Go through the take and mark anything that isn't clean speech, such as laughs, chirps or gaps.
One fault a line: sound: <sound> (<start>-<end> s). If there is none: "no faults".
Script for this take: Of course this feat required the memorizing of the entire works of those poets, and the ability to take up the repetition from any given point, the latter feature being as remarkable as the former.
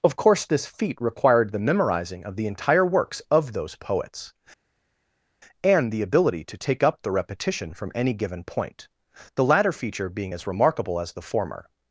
no faults